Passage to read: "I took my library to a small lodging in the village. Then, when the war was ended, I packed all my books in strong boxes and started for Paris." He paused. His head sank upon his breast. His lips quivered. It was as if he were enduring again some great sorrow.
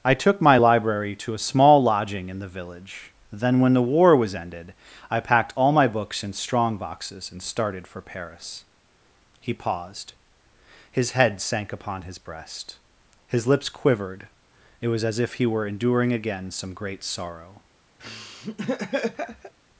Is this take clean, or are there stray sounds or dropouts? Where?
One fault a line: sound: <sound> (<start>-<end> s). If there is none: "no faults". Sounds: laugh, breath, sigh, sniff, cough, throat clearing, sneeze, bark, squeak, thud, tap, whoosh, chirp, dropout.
sound: laugh (18.0-19.5 s)